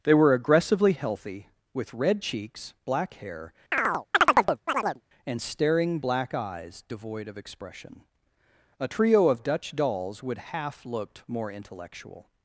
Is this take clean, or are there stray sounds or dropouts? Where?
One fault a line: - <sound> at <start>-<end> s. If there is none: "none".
- chirp at 3.7-5.0 s